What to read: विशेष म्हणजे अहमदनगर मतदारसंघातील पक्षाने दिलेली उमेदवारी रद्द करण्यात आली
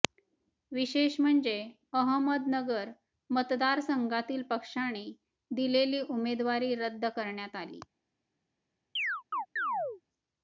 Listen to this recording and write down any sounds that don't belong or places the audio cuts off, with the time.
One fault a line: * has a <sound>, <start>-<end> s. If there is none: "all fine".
* has a chirp, 9.0-10.0 s